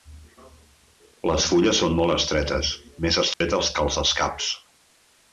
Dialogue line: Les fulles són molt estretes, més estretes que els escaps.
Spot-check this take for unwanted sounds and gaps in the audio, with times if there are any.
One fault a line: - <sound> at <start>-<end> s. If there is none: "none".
- dropout at 3.3-3.4 s